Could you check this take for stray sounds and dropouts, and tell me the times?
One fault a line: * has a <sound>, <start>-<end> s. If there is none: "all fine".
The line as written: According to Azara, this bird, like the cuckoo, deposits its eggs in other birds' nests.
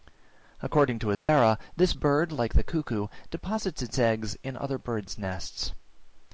* has a dropout, 1.1-1.3 s